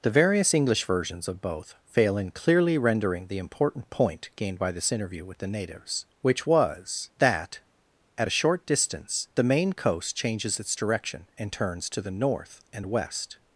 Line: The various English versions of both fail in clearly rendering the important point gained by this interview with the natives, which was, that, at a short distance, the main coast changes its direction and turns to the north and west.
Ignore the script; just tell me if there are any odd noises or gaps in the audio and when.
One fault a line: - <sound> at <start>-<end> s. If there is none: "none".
none